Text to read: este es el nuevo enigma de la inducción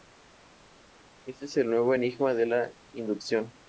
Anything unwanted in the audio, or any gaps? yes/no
no